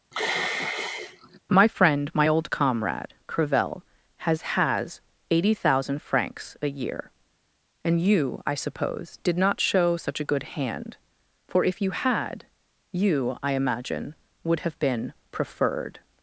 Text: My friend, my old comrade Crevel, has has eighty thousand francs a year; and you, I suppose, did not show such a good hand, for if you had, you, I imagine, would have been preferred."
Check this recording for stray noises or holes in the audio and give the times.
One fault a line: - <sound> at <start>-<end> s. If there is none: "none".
- sigh at 0.1-1.4 s